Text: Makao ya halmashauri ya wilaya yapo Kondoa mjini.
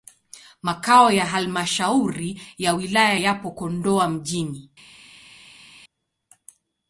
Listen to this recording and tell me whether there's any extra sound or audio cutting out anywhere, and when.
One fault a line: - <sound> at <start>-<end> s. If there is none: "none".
none